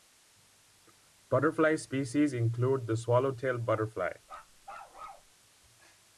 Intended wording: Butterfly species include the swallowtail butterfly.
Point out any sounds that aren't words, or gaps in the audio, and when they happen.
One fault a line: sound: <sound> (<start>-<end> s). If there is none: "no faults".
sound: bark (4.2-5.3 s)